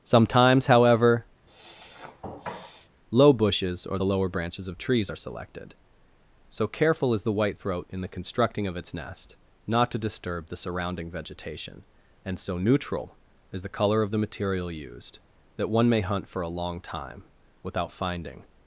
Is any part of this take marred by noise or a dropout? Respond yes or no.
yes